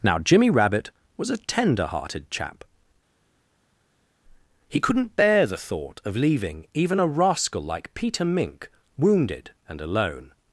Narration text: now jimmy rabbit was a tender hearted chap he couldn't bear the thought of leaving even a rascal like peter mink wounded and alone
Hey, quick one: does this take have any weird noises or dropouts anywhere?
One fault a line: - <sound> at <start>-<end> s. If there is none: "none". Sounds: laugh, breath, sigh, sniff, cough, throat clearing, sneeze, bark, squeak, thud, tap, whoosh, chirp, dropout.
none